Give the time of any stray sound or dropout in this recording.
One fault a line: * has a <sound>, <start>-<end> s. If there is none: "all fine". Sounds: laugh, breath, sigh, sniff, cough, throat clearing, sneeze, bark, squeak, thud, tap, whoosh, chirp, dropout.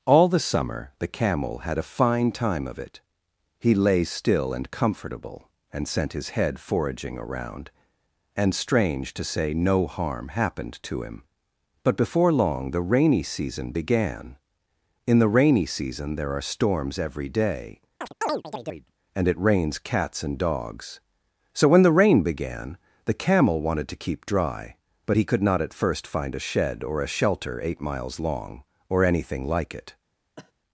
* has a chirp, 18.0-18.9 s
* has a cough, 30.4-30.5 s